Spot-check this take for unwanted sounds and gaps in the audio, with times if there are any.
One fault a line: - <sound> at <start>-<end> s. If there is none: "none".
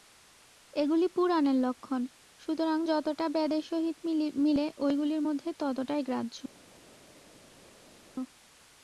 none